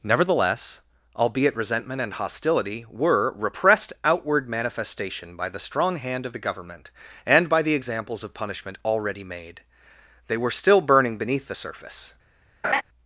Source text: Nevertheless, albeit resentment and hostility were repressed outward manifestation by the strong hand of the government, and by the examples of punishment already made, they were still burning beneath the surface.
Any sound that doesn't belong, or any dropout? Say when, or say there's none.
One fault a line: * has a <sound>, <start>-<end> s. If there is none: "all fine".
* has a laugh, 12.6-12.8 s